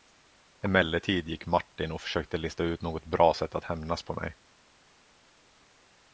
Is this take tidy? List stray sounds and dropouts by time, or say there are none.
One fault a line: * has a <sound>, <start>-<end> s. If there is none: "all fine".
all fine